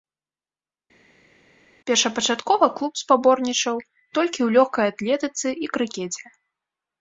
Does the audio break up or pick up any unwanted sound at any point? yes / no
no